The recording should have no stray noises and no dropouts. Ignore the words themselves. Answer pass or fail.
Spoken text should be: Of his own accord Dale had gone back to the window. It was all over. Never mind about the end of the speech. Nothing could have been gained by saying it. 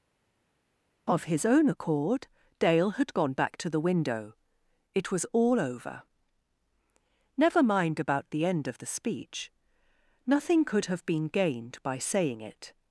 pass